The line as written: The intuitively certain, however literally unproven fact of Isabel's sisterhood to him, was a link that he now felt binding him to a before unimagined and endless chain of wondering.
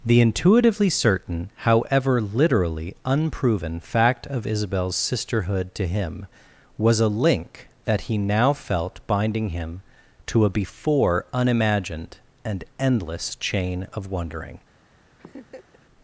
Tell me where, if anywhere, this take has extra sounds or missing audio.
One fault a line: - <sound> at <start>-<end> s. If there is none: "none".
- laugh at 15.2-15.9 s